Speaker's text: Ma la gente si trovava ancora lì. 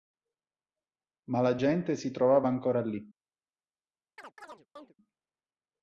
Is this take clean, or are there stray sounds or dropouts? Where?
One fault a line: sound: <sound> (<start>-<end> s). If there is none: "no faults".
sound: chirp (4.2-4.9 s)